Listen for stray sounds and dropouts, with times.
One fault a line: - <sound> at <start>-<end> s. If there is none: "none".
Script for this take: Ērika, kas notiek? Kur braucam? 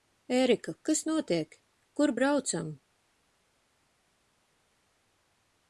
none